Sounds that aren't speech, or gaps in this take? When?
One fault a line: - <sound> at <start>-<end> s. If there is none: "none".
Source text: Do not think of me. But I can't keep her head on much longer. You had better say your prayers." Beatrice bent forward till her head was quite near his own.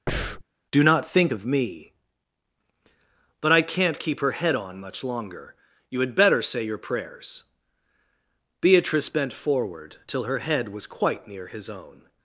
- breath at 0.1-0.4 s